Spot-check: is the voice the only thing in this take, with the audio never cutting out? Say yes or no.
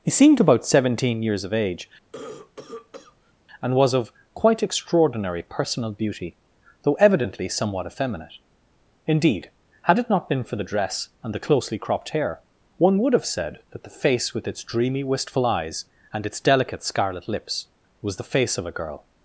no